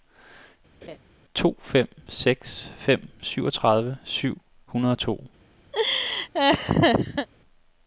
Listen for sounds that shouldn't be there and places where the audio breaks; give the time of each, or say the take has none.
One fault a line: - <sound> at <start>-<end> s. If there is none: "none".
- laugh at 0.8-1.0 s
- laugh at 5.7-7.3 s